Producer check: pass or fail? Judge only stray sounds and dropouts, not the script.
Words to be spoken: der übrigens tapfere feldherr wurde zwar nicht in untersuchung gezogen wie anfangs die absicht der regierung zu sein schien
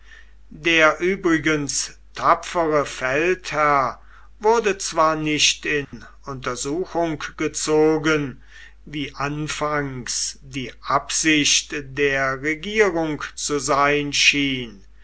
fail